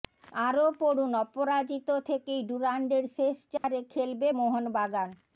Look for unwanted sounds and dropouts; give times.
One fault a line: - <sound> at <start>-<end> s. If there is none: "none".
- dropout at 3.6-3.6 s